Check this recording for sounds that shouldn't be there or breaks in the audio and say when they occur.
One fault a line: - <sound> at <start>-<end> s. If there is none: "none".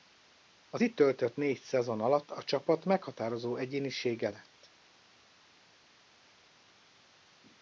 none